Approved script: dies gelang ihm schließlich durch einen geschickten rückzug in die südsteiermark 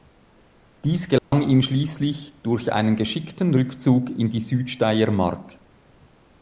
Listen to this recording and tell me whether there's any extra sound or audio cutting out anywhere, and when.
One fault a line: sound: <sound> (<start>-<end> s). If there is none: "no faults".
sound: dropout (1.2-1.3 s)